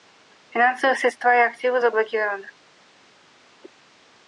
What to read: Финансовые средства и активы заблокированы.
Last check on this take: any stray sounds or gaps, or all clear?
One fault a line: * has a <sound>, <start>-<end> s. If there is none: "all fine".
all fine